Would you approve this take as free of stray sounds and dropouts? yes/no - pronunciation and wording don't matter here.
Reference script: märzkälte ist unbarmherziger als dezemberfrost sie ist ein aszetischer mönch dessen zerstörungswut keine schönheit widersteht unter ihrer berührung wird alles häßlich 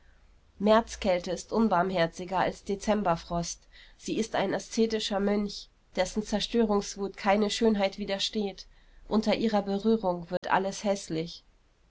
no